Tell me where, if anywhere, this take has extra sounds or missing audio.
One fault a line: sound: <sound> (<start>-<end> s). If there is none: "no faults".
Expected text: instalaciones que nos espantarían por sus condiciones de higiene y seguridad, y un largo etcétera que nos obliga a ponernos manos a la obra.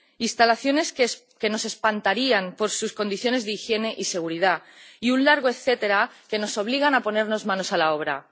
no faults